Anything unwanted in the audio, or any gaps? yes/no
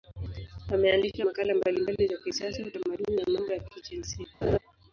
yes